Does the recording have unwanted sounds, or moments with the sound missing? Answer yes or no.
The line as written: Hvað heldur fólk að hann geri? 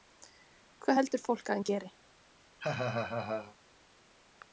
yes